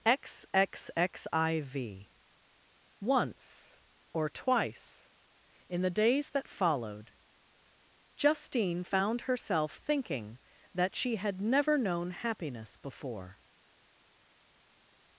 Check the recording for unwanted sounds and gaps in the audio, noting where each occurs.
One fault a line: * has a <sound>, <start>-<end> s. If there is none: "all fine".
all fine